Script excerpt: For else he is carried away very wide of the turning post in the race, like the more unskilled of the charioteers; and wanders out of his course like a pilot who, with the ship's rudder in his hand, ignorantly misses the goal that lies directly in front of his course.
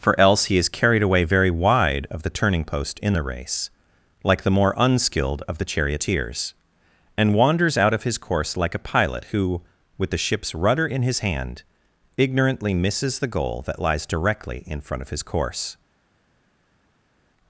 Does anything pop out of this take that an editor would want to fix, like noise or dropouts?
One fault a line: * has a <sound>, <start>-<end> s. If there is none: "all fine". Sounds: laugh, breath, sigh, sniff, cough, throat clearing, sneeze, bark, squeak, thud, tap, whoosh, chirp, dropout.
all fine